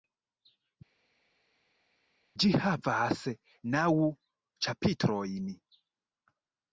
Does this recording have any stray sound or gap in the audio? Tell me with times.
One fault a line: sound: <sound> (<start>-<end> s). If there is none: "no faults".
no faults